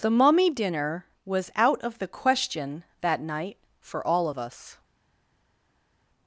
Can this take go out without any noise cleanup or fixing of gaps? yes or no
yes